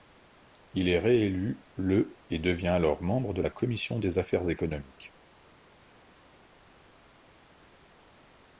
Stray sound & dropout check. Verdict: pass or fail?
pass